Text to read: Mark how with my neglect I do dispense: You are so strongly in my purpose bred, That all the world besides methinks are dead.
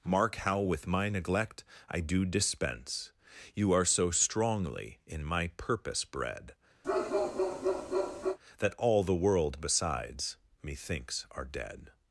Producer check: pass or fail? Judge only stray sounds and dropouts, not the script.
fail